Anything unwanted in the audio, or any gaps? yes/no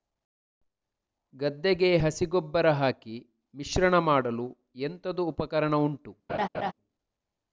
yes